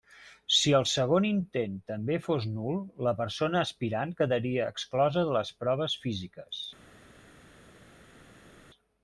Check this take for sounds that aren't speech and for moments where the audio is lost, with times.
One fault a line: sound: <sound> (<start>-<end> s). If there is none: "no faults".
no faults